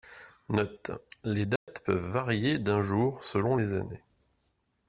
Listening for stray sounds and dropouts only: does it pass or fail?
fail